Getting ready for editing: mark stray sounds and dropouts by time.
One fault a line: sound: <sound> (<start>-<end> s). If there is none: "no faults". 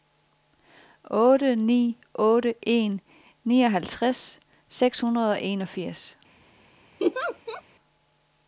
sound: laugh (7.0-7.6 s)